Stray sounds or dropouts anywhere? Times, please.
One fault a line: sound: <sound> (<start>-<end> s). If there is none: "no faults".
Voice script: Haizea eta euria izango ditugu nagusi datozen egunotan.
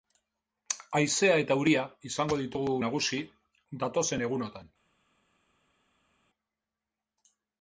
no faults